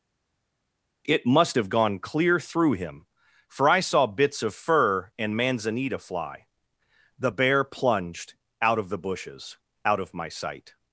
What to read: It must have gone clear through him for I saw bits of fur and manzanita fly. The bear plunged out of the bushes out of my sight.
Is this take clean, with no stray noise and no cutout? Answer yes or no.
yes